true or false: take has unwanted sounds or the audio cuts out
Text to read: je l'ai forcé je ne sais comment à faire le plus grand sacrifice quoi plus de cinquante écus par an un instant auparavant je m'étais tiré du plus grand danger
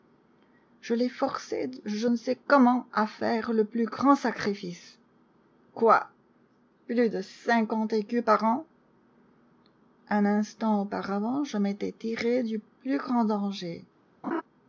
true